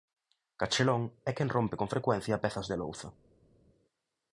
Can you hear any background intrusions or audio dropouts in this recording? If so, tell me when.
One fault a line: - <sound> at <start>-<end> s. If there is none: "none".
none